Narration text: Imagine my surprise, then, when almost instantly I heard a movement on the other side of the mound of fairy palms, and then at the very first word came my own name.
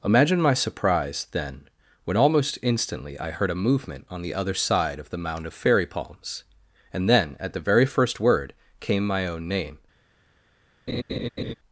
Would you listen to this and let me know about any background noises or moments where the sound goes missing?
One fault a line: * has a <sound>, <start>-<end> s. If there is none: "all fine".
* has a laugh, 10.9-11.5 s